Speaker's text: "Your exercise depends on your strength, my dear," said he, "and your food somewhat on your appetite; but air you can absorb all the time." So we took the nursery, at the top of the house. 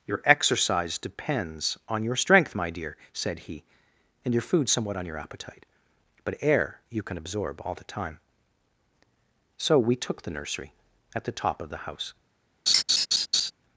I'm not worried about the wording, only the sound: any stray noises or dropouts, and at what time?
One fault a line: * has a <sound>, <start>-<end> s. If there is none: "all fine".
* has a laugh, 12.7-13.5 s